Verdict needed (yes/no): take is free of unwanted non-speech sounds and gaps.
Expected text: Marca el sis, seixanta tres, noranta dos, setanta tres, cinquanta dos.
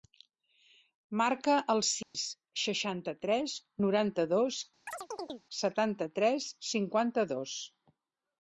no